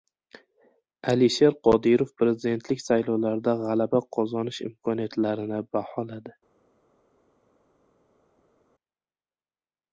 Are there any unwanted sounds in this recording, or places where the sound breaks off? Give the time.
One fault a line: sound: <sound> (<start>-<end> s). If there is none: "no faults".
no faults